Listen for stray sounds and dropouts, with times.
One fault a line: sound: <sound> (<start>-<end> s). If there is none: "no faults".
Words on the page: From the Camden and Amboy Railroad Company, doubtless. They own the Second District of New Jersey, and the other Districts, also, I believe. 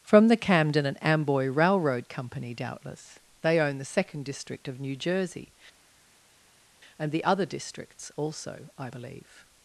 no faults